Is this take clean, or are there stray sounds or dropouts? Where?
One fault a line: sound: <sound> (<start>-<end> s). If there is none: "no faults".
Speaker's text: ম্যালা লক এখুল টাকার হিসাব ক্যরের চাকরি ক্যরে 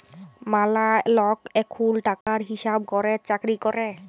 sound: dropout (2.2-2.3 s)